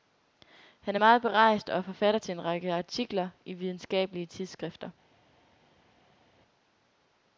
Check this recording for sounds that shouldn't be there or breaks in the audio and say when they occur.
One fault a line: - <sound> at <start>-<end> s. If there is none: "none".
none